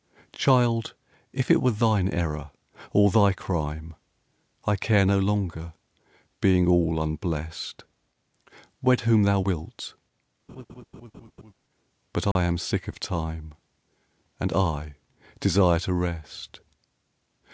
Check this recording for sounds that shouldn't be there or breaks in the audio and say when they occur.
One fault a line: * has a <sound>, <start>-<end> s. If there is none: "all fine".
* has a laugh, 10.5-11.5 s
* has a dropout, 12.3-12.4 s